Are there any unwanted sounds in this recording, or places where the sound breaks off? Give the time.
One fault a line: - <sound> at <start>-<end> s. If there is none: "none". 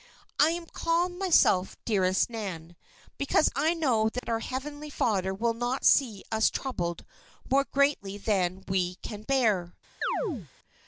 - dropout at 4.2-4.2 s
- chirp at 10.0-10.5 s